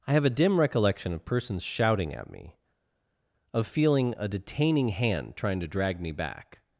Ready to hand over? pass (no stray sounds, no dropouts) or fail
pass